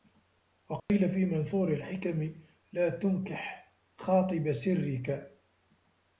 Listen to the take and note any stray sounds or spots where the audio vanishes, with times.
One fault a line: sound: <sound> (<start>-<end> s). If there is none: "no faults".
sound: dropout (0.8-0.9 s)